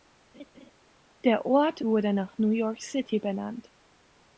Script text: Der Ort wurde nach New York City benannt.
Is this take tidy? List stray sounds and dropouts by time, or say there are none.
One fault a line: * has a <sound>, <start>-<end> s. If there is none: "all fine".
* has a laugh, 0.3-0.7 s